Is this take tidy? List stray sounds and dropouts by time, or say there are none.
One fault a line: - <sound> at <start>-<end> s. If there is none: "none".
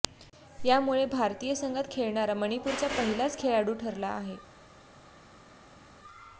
none